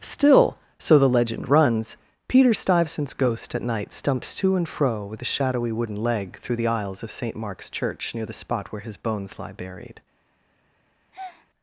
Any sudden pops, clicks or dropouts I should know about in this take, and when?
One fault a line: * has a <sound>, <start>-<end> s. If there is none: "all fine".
* has a breath, 11.1-11.5 s